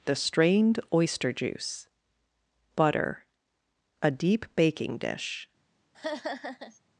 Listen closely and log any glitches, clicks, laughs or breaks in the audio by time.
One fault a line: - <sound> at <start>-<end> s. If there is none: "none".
- laugh at 5.9-6.8 s